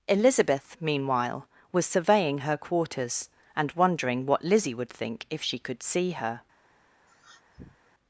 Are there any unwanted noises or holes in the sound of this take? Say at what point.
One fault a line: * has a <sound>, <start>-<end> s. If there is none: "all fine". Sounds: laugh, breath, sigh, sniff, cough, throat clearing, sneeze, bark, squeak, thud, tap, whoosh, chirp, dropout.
* has a sniff, 7.1-7.9 s